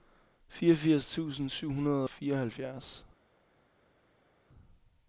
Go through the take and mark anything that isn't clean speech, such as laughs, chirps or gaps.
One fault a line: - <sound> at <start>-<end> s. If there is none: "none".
none